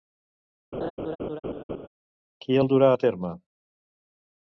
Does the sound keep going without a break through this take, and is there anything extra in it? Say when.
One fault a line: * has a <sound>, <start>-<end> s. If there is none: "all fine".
* has a laugh, 0.7-1.9 s